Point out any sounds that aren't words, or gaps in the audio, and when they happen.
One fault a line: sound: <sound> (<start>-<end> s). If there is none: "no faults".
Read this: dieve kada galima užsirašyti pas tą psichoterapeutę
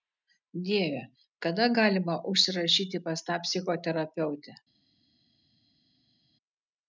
no faults